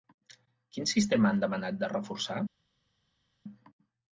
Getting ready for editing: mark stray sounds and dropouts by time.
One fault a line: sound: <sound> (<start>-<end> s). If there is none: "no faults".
no faults